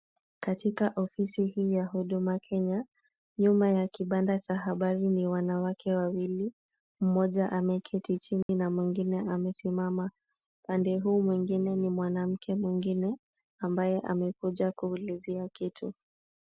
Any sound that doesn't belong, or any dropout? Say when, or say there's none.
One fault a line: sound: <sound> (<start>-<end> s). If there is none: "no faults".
sound: dropout (8.4-8.5 s)